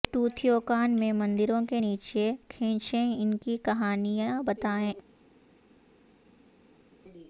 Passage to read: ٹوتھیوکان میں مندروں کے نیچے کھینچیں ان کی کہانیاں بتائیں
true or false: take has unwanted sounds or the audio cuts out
false